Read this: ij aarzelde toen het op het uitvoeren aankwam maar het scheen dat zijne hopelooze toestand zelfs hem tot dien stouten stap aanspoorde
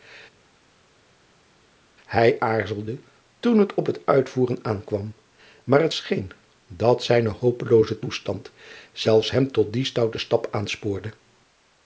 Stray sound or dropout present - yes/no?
no